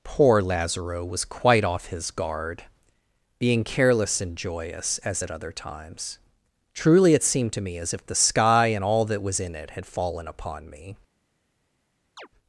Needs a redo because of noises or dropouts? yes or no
yes